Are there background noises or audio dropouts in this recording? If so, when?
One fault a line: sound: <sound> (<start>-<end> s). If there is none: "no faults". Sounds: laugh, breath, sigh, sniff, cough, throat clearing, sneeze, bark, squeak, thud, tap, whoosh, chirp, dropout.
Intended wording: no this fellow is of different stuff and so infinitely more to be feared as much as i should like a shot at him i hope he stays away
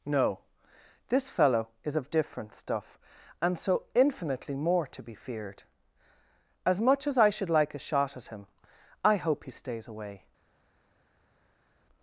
no faults